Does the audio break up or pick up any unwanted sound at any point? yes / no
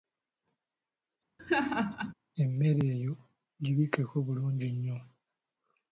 yes